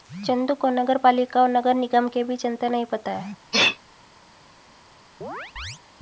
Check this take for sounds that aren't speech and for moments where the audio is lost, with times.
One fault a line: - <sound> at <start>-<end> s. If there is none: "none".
- sneeze at 3.5-3.8 s
- chirp at 5.2-5.8 s